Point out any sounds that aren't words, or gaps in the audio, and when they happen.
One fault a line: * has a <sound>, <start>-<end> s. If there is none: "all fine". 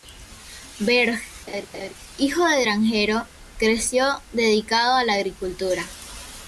* has a laugh, 1.5-1.9 s